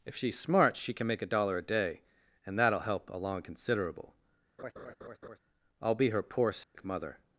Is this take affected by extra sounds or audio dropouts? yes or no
yes